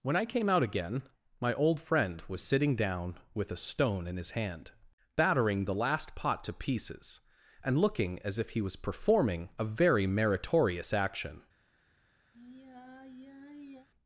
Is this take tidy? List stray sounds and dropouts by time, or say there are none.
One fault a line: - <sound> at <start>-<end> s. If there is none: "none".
- sigh at 12.3-13.9 s